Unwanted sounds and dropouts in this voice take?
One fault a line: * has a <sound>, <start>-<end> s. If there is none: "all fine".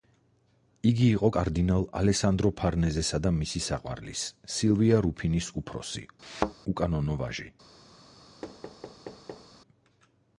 * has a thud, 6.2-6.5 s
* has a thud, 8.4-9.5 s